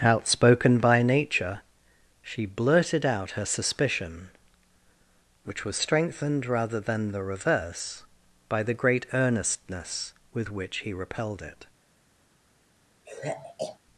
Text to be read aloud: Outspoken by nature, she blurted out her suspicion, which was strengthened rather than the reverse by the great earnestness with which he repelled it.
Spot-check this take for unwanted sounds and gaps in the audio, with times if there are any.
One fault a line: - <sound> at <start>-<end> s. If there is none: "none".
- sigh at 13.1-13.8 s